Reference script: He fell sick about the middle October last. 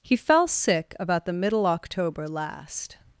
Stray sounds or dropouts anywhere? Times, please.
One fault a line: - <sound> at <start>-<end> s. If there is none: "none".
none